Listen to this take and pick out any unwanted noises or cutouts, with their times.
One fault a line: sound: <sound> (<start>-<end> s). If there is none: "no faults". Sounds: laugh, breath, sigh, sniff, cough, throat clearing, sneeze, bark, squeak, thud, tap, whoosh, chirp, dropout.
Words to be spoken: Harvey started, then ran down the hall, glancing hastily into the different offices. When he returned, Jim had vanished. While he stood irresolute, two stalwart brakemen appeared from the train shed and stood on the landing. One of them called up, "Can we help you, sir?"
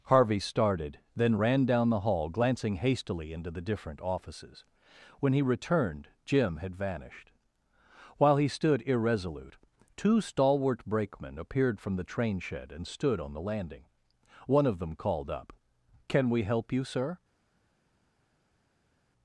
no faults